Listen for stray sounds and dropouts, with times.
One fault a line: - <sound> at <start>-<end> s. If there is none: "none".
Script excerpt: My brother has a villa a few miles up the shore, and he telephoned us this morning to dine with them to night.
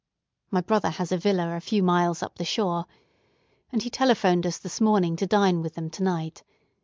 none